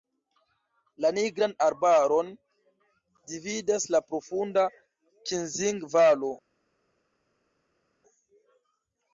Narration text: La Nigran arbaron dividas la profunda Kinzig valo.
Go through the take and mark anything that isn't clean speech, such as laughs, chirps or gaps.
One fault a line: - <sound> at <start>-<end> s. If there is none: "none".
none